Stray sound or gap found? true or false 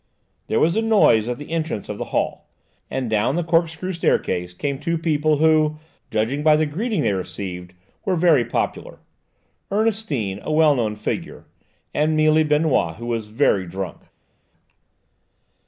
false